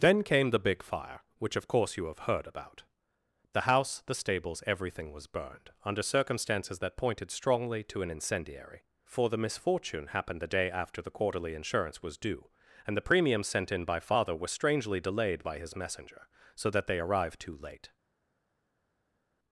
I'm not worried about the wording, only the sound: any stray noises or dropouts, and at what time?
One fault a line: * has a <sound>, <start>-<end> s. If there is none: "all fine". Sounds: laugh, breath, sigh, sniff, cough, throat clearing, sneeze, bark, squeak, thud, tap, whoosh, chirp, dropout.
all fine